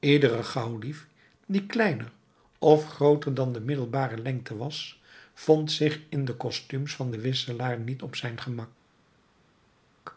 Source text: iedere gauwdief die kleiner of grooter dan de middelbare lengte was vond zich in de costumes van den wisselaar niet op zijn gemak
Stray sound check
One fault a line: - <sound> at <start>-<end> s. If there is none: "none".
none